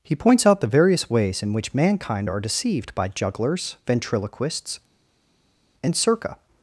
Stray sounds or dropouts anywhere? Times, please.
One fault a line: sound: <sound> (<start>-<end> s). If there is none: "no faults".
no faults